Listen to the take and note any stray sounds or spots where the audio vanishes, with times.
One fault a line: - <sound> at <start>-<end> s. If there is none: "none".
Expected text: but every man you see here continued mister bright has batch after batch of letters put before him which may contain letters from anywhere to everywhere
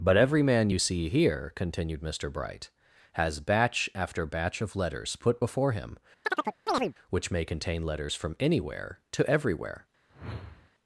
- chirp at 6.2-6.9 s
- whoosh at 10.1-10.7 s